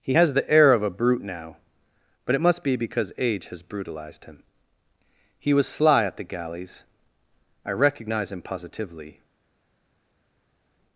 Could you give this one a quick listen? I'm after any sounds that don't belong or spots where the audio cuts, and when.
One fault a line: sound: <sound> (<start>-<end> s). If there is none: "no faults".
no faults